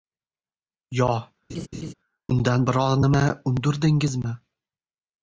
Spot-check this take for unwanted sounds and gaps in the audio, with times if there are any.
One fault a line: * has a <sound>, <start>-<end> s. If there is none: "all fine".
* has a laugh, 1.5-1.9 s